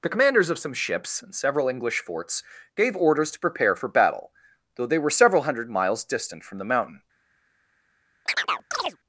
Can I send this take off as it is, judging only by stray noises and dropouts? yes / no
no